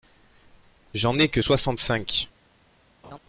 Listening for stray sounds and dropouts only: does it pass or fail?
fail